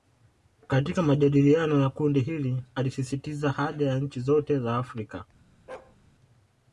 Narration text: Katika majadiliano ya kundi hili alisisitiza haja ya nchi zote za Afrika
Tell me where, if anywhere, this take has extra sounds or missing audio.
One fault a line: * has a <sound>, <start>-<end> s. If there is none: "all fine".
* has a bark, 5.7-6.0 s